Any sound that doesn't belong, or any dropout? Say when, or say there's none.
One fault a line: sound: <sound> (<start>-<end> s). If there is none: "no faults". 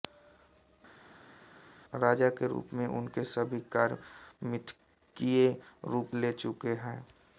no faults